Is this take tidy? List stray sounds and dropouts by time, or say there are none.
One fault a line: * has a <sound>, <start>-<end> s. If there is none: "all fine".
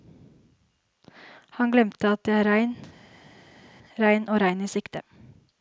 all fine